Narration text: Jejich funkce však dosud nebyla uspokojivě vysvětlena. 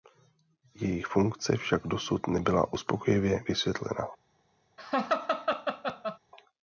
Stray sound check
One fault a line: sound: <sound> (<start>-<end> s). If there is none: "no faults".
sound: laugh (4.8-6.2 s)